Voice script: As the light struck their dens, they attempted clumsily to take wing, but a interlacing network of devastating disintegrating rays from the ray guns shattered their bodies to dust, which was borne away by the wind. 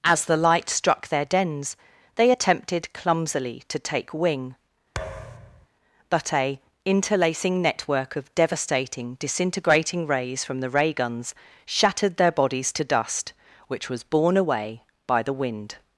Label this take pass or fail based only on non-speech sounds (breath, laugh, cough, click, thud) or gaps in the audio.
fail